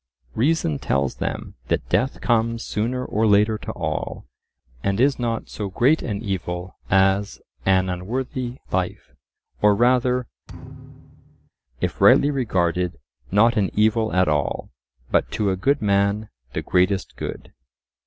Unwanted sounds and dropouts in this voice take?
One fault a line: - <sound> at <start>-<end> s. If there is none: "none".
- thud at 10.5-11.5 s